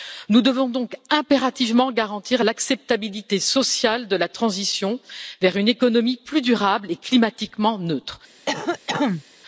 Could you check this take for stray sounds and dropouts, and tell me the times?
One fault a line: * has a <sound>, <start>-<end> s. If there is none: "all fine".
* has a cough, 8.5-9.2 s